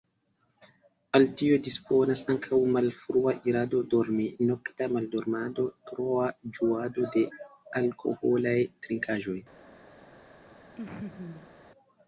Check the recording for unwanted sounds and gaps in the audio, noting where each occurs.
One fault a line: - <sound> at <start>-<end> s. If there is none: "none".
- laugh at 10.8-11.5 s